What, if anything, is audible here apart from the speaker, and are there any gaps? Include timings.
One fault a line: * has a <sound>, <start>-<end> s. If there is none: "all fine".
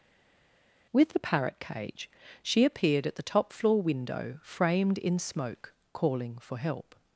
all fine